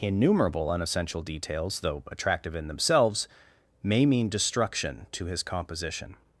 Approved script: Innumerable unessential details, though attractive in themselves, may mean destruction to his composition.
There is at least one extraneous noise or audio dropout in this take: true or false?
false